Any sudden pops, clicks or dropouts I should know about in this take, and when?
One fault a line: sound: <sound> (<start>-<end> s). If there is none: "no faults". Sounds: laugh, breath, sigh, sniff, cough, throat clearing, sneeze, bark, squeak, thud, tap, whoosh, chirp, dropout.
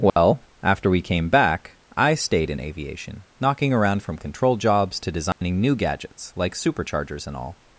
sound: dropout (0.1-0.2 s)
sound: dropout (5.3-5.4 s)